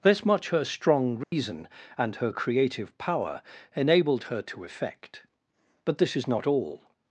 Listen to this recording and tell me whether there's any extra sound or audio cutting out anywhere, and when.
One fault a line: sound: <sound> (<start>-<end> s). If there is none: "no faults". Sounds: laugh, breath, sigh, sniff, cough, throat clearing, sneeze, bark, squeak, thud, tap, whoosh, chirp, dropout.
sound: dropout (1.2-1.3 s)